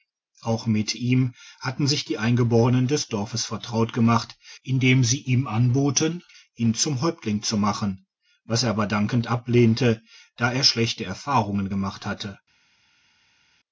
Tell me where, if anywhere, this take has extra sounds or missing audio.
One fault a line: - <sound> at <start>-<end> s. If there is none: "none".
none